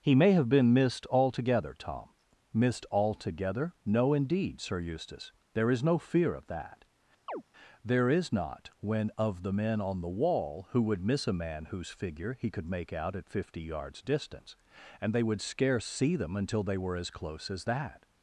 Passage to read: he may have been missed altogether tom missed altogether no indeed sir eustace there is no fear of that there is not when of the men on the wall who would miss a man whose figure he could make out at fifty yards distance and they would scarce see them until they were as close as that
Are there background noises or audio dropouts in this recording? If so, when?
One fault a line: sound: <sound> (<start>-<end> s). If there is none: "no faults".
sound: chirp (7.3-7.4 s)